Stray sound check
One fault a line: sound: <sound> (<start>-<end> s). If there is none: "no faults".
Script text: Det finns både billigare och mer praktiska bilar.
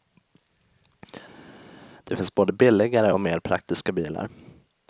no faults